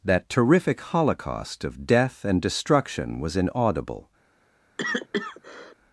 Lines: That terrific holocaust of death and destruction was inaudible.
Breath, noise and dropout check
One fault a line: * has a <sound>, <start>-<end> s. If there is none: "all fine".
* has a cough, 4.8-5.8 s